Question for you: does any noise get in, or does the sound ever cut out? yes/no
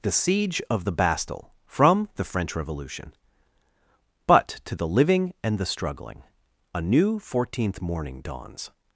no